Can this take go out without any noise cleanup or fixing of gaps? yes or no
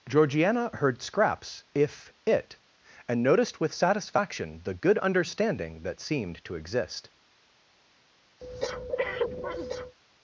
no